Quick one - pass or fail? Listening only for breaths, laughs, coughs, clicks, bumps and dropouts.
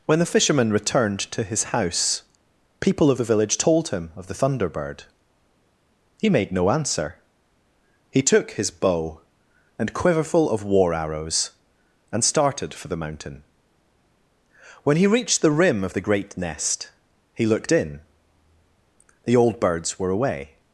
pass